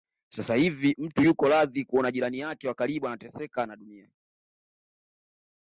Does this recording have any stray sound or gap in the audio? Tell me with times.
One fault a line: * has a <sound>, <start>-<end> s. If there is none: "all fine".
all fine